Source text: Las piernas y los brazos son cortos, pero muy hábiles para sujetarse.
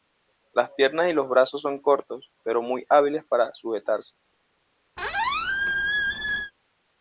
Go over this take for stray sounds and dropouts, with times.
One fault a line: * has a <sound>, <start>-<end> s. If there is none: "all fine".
* has a squeak, 5.0-6.5 s